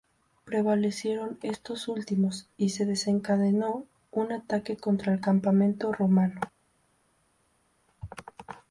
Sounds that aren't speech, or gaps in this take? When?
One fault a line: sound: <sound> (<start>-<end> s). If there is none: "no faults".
no faults